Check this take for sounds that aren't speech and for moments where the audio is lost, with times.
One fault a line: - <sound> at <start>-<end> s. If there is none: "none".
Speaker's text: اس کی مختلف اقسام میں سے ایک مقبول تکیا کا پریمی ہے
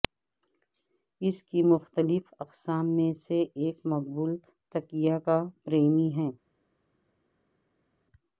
none